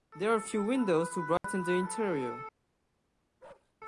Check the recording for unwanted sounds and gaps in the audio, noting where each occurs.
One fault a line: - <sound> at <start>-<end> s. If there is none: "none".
- dropout at 1.4-1.4 s
- bark at 3.4-3.7 s